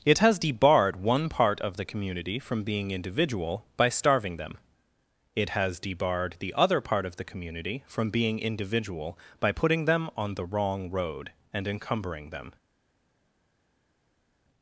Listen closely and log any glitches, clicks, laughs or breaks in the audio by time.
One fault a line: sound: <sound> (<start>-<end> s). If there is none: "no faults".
no faults